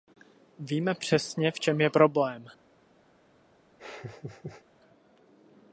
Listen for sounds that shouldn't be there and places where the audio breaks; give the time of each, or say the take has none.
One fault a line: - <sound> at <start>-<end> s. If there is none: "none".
- laugh at 3.8-4.6 s